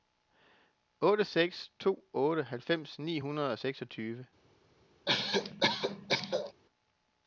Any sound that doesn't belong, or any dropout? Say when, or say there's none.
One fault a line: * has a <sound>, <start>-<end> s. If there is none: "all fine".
* has a cough, 5.1-6.5 s